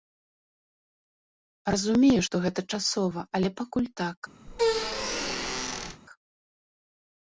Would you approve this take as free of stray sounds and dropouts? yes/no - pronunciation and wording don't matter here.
no